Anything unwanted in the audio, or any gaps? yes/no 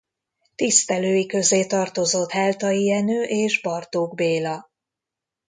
no